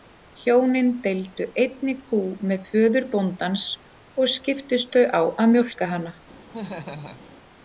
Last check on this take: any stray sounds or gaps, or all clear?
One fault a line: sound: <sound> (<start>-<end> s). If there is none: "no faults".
sound: laugh (6.5-7.3 s)